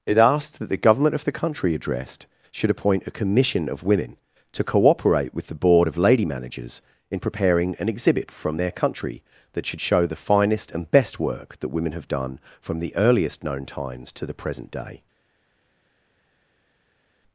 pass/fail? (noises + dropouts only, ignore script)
pass